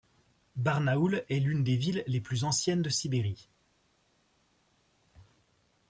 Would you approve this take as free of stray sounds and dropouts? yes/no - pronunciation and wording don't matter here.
yes